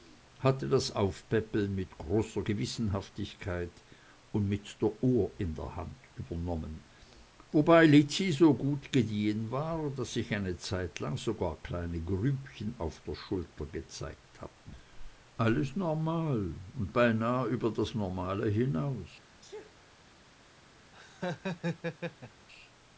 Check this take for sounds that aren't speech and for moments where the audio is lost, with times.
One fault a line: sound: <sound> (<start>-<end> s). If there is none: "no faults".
sound: sneeze (19.4-19.8 s)
sound: laugh (20.9-22.5 s)